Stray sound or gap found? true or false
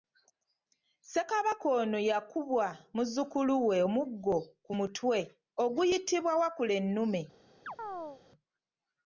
true